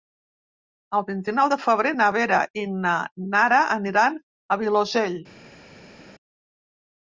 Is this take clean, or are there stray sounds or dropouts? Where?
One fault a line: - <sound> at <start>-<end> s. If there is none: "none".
none